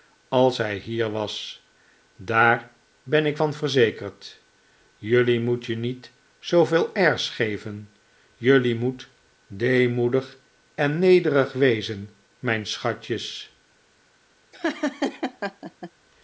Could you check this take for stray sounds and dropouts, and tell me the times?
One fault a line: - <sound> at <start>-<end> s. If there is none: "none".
- laugh at 14.5-15.9 s